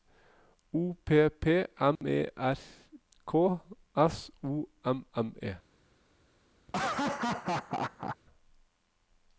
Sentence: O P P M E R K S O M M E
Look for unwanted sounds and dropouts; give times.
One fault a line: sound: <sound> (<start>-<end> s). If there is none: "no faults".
sound: dropout (2.0-2.0 s)
sound: laugh (6.7-8.2 s)